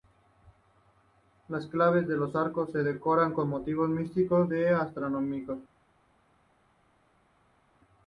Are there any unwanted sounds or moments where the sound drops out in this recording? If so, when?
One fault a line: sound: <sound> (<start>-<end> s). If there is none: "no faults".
no faults